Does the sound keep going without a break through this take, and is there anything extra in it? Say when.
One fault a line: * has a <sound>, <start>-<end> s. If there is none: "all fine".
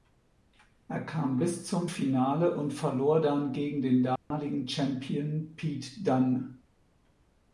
* has a dropout, 4.2-4.3 s